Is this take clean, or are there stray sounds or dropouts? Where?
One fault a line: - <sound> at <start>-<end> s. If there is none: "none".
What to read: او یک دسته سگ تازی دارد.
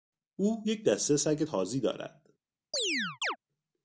- chirp at 2.7-3.4 s